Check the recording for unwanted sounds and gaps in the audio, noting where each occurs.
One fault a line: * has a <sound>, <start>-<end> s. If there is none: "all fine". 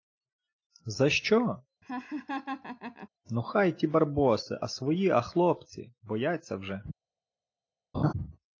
* has a laugh, 1.8-3.1 s
* has a laugh, 7.9-8.1 s